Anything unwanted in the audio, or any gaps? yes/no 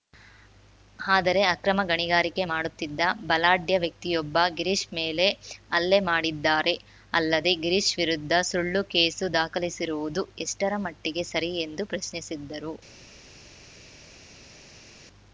no